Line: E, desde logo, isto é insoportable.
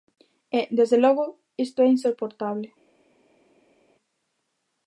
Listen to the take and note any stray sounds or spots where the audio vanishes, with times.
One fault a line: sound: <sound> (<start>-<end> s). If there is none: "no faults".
no faults